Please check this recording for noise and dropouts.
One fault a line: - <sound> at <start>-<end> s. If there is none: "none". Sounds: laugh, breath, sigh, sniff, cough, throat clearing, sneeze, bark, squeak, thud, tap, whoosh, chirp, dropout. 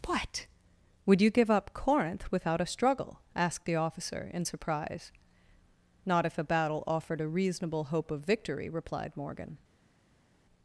none